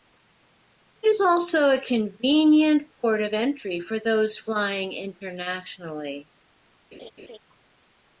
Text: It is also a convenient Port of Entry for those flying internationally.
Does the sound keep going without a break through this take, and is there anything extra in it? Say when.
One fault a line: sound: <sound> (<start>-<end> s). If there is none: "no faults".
sound: laugh (6.9-7.4 s)